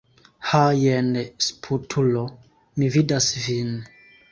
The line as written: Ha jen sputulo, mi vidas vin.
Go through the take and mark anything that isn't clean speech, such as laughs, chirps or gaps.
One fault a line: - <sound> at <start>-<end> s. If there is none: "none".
none